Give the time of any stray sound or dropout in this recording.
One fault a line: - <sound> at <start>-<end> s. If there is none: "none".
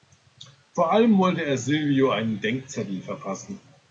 none